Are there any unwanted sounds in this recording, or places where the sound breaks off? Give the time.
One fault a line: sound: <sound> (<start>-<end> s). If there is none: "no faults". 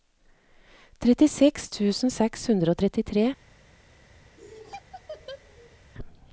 sound: laugh (4.4-5.8 s)